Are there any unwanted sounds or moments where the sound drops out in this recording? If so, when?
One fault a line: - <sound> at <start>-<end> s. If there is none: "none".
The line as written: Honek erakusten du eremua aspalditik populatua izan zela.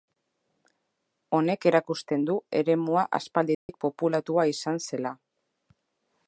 - dropout at 3.5-3.7 s